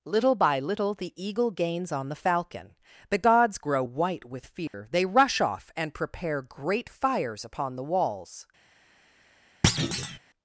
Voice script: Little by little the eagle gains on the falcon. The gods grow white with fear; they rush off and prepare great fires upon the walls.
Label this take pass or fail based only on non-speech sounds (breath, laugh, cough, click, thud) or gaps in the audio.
fail